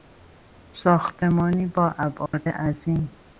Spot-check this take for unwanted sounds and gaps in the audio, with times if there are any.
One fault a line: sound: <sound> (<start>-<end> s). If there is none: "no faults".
sound: dropout (2.3-2.3 s)